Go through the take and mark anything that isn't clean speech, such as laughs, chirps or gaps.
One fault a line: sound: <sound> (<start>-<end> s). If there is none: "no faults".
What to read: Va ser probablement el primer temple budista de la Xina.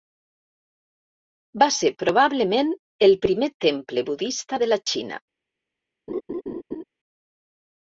sound: laugh (6.1-6.8 s)